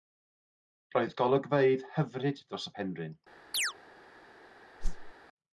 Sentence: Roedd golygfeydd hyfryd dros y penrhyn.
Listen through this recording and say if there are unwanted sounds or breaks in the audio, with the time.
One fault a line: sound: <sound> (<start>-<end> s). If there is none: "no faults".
sound: chirp (3.5-3.7 s)
sound: whoosh (4.8-5.1 s)